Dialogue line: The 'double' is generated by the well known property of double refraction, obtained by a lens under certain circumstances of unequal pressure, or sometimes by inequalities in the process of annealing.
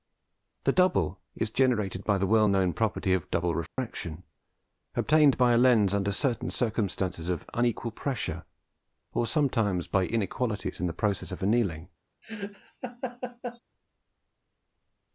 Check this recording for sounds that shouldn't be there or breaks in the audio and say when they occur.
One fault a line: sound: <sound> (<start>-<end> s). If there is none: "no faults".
sound: dropout (3.7-3.8 s)
sound: laugh (12.2-13.6 s)